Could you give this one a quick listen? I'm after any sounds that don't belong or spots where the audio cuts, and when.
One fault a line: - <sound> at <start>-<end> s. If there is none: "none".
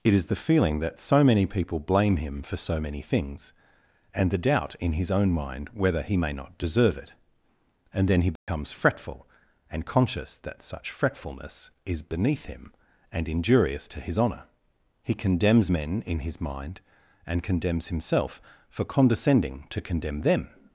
- dropout at 8.4-8.5 s